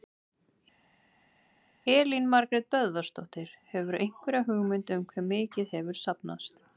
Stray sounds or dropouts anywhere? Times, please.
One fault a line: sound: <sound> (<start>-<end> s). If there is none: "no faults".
no faults